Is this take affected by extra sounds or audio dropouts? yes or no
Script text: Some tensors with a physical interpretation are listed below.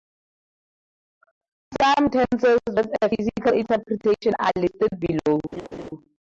yes